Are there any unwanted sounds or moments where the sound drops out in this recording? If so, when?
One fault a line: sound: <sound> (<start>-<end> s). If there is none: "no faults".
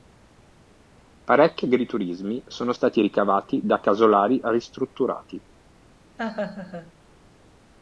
sound: laugh (6.2-6.9 s)